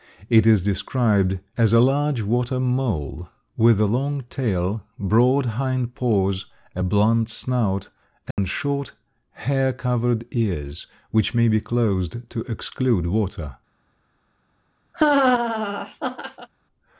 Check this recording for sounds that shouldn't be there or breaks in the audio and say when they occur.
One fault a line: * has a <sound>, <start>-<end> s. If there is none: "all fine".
* has a dropout, 8.3-8.4 s
* has a laugh, 14.9-16.5 s